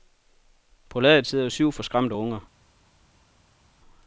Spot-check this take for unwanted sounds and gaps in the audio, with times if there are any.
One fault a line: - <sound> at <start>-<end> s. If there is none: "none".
none